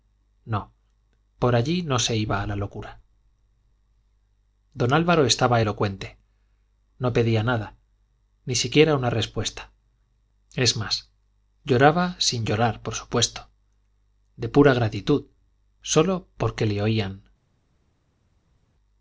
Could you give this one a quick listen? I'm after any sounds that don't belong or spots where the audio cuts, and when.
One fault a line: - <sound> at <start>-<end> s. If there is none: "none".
none